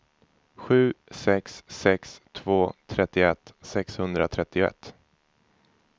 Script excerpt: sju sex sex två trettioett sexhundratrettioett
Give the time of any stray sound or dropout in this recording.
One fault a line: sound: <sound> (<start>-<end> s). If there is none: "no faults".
no faults